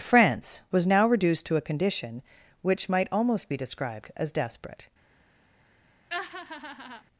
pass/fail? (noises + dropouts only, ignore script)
fail